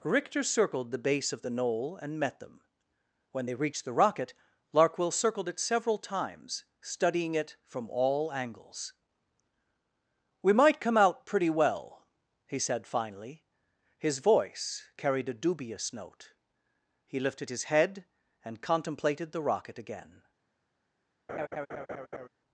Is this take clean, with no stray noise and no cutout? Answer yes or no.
no